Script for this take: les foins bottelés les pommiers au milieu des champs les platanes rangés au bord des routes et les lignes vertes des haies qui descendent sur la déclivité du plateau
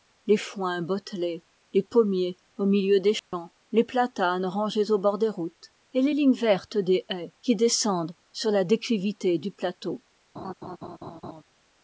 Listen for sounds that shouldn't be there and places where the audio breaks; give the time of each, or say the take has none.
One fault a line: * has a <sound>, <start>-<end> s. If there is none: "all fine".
* has a dropout, 3.2-3.3 s
* has a laugh, 10.4-11.4 s